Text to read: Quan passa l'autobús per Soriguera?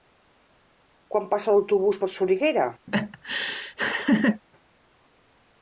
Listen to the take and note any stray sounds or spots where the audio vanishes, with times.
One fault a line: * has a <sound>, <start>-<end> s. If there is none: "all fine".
* has a laugh, 2.9-4.4 s